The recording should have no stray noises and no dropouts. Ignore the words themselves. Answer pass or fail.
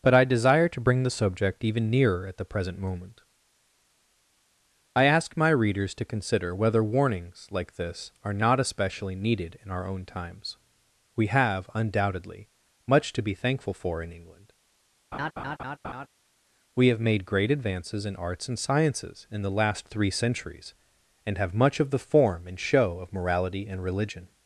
fail